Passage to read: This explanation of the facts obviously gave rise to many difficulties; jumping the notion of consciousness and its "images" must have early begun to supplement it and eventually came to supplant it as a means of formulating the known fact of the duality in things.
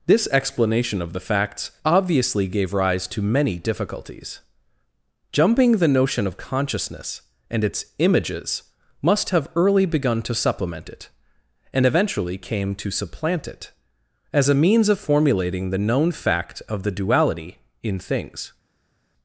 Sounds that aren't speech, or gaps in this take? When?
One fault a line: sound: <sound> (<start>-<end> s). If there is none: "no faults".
no faults